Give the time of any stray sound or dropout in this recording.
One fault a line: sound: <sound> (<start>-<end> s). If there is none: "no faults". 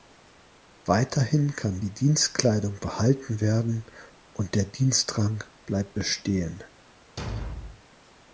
sound: thud (7.2-7.8 s)